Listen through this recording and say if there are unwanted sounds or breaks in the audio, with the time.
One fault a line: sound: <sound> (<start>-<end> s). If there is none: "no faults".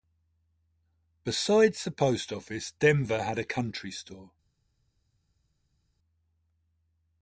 no faults